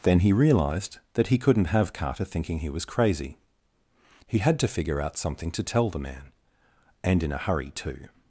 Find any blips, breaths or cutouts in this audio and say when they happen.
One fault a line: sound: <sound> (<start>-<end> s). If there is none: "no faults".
no faults